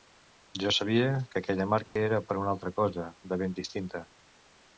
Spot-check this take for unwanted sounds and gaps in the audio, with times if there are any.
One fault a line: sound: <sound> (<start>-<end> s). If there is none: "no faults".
sound: dropout (1.9-2.0 s)